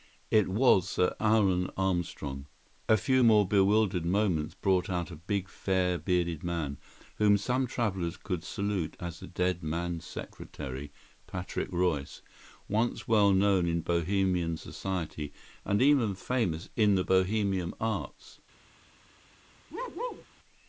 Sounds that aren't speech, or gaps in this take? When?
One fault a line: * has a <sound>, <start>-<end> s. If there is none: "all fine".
* has a bark, 19.7-20.3 s